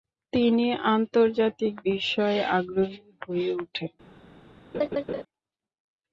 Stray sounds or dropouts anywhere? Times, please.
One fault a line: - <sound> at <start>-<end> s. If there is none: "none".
- laugh at 4.7-5.2 s